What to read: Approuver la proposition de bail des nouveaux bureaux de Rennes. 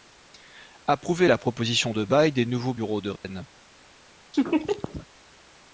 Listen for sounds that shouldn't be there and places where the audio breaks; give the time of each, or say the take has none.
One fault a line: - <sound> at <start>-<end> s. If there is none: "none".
- dropout at 3.2-3.2 s
- laugh at 4.3-5.1 s